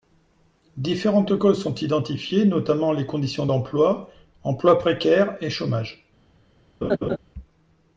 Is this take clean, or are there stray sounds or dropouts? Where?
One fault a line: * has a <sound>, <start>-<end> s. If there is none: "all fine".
* has a laugh, 6.8-7.2 s